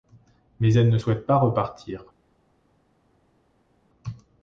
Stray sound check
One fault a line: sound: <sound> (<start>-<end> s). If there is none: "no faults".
no faults